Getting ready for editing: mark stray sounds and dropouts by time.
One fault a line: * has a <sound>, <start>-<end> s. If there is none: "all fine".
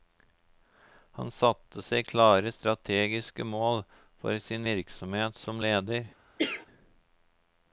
* has a cough, 6.4-6.7 s